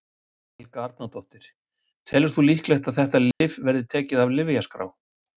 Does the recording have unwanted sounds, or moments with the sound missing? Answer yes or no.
yes